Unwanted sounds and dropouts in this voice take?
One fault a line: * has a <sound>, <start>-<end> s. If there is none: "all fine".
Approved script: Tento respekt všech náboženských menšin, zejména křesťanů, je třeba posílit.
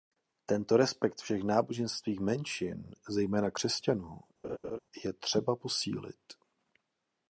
* has a laugh, 4.4-4.8 s